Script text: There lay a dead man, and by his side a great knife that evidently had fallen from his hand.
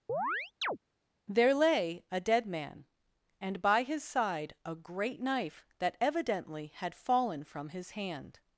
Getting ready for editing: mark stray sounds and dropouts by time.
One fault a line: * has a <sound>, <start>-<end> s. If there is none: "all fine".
* has a chirp, 0.1-0.8 s